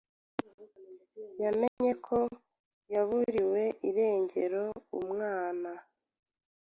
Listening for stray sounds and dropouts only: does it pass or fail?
fail